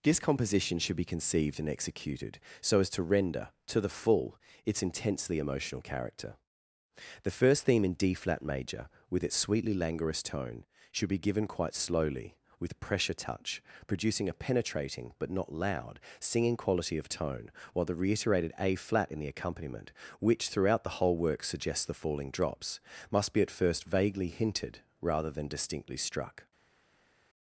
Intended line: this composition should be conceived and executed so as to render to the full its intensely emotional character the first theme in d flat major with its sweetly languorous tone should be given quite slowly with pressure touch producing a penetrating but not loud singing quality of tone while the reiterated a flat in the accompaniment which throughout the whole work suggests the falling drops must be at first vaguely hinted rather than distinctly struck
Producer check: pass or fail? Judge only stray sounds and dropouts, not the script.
pass